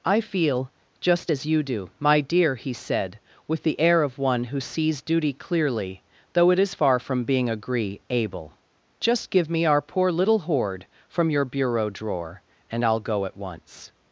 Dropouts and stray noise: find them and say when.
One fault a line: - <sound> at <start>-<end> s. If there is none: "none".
none